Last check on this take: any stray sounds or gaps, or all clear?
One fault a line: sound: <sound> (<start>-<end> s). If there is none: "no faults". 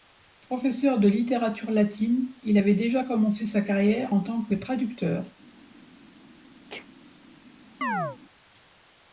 sound: sneeze (6.7-6.9 s)
sound: chirp (7.8-8.2 s)